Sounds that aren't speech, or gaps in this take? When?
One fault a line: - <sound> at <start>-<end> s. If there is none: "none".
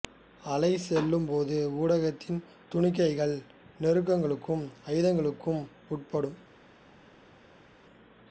none